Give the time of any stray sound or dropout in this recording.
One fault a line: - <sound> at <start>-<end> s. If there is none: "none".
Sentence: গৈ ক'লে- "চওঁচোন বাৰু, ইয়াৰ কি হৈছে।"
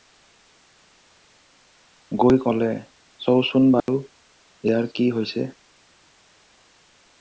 - dropout at 3.8-3.9 s